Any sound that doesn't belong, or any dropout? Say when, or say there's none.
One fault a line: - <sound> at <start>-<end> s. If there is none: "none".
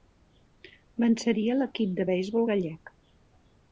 none